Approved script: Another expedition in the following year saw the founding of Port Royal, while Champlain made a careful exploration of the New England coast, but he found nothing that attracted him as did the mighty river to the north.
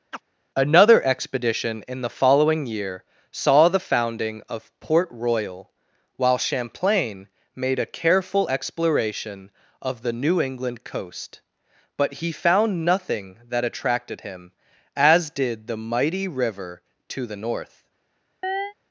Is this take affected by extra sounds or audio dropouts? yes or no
yes